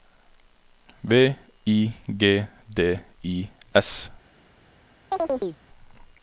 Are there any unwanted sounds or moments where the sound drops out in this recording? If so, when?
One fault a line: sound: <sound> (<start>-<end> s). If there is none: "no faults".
sound: chirp (5.1-5.6 s)